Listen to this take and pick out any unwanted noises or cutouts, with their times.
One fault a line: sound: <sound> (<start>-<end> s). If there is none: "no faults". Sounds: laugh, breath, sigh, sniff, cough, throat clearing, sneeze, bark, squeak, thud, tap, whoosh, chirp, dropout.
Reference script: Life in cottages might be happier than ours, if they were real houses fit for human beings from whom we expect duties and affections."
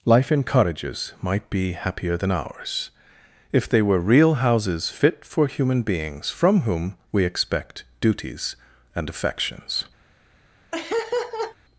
sound: laugh (10.7-11.6 s)